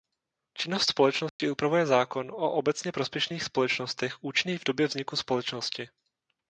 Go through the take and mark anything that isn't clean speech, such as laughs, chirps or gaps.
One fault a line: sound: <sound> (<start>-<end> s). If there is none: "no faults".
sound: dropout (1.3-1.4 s)